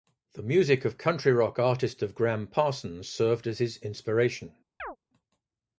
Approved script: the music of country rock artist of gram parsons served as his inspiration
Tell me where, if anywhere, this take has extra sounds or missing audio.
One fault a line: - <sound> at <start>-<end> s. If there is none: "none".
- chirp at 4.8-5.0 s